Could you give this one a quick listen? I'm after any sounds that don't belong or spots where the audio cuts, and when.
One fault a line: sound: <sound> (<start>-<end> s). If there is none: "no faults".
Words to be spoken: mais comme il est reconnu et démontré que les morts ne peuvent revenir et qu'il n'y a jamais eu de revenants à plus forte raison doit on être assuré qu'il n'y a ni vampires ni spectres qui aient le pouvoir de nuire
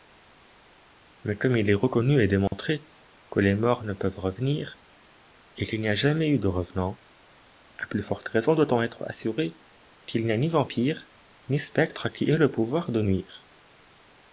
sound: dropout (2.5-2.5 s)